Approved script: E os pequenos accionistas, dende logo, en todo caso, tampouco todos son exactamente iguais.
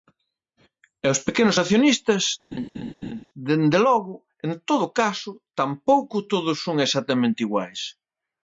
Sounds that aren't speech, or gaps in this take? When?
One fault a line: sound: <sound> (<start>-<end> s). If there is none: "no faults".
sound: laugh (2.5-3.2 s)